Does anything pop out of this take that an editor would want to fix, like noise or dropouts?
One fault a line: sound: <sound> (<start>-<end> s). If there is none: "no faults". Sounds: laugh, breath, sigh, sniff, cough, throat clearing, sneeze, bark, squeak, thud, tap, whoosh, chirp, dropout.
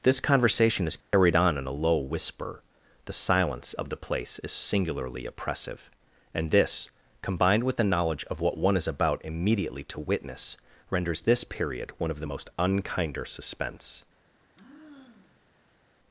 sound: dropout (1.0-1.1 s)
sound: sigh (14.3-15.8 s)